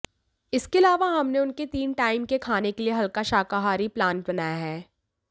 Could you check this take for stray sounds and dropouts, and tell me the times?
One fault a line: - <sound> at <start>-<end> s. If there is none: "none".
none